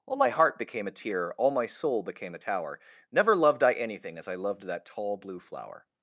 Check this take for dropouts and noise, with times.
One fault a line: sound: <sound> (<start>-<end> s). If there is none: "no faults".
no faults